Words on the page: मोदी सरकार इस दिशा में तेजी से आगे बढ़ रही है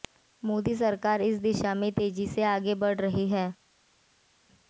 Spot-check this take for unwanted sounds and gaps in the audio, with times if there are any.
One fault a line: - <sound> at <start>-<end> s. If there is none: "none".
none